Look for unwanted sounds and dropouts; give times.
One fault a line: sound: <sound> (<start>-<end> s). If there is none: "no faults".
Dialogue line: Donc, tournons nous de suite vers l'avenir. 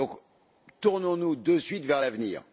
no faults